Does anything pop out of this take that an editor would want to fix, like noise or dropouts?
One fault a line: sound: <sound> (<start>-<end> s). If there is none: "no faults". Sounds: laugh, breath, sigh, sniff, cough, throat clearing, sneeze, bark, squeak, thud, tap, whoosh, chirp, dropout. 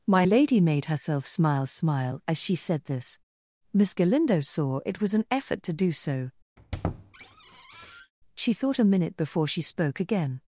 sound: squeak (6.6-8.1 s)